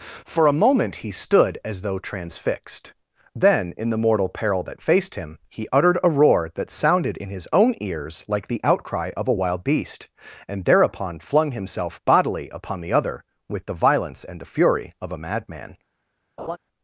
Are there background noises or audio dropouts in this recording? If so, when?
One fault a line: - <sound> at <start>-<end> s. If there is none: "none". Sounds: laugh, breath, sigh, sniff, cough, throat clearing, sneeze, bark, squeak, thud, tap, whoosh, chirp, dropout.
- laugh at 16.4-16.6 s